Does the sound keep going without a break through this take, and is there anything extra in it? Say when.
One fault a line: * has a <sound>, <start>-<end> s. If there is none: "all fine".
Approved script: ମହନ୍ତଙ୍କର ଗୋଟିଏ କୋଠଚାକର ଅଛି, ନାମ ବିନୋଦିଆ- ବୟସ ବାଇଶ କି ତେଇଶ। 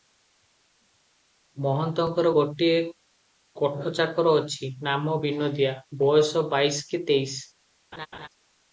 * has a laugh, 7.9-8.3 s